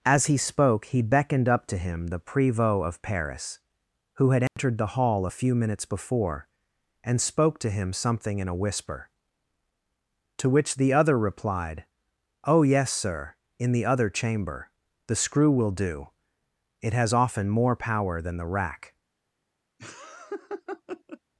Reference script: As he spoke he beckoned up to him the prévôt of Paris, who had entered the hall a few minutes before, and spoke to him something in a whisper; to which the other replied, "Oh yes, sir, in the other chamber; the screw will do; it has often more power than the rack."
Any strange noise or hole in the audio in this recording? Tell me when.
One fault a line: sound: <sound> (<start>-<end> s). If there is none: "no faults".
sound: dropout (4.5-4.6 s)
sound: laugh (19.8-21.2 s)